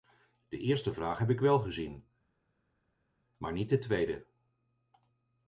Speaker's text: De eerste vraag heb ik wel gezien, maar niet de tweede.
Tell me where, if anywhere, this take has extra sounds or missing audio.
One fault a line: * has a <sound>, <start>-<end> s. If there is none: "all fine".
all fine